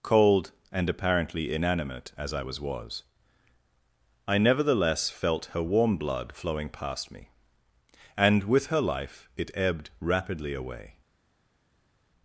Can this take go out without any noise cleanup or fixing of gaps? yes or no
yes